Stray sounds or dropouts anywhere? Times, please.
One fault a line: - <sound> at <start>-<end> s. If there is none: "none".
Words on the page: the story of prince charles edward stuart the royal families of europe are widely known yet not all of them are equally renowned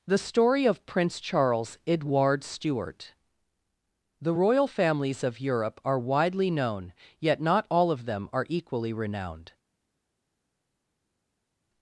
none